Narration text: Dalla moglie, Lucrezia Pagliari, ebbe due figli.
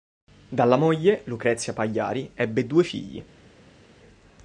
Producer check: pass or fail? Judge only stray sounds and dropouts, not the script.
pass